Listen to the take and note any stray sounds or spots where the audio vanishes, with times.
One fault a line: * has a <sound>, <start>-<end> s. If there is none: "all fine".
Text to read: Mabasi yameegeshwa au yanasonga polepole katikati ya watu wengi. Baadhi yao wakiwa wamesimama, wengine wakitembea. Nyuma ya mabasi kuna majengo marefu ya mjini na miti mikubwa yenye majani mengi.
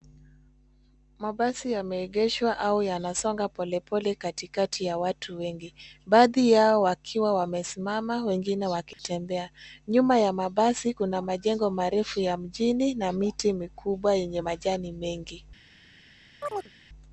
* has a dropout, 8.9-9.0 s
* has a chirp, 16.4-16.7 s